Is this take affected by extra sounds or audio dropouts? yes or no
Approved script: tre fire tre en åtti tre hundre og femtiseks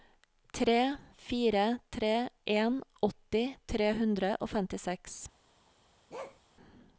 yes